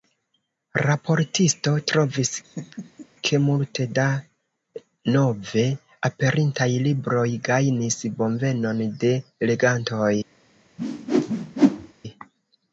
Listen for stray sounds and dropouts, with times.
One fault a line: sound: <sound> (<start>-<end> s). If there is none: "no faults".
sound: laugh (2.4-3.1 s)
sound: whoosh (10.8-11.9 s)